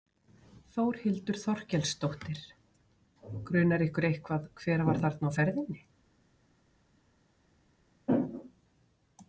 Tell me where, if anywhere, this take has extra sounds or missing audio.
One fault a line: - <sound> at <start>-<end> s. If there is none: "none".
none